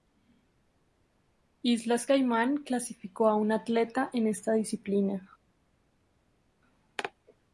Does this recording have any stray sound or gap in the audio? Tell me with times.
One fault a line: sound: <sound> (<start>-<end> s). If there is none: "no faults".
no faults